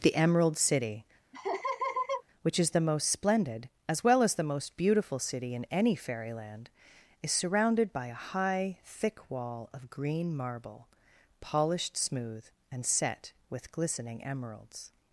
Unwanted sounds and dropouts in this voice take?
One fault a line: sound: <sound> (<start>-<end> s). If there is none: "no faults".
sound: laugh (1.3-2.2 s)